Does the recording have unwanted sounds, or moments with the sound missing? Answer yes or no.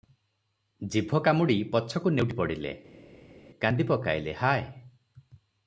no